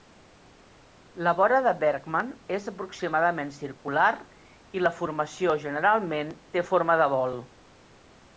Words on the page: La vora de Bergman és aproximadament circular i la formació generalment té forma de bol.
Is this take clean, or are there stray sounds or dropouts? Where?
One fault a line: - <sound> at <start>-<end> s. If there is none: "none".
none